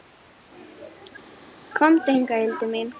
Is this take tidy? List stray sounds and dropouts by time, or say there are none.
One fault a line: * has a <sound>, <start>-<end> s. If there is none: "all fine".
all fine